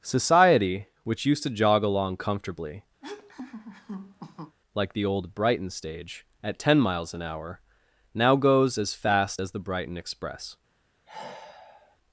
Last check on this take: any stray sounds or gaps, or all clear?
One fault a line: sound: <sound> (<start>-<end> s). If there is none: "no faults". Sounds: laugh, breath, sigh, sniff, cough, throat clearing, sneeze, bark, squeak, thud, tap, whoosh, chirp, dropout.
sound: laugh (3.0-4.6 s)
sound: sigh (11.0-12.0 s)